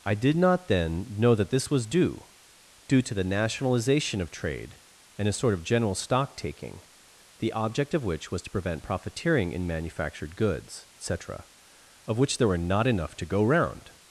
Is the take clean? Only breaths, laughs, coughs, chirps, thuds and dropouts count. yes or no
yes